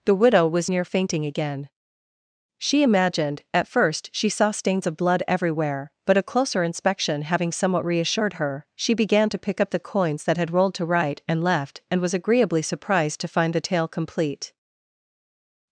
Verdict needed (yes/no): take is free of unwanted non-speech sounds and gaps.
yes